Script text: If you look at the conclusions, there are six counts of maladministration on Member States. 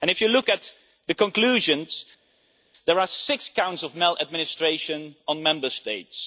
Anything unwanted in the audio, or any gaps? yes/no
no